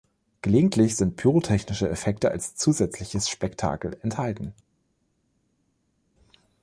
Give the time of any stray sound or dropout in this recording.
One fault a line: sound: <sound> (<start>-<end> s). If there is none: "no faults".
no faults